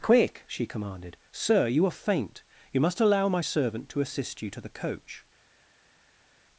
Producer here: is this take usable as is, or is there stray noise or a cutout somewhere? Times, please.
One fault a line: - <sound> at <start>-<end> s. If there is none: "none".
none